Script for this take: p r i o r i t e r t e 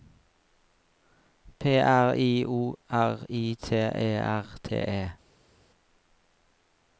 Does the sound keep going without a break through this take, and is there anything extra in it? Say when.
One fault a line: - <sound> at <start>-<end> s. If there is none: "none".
none